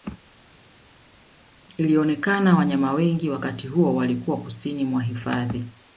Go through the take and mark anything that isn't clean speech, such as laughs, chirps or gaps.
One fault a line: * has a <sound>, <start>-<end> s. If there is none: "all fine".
all fine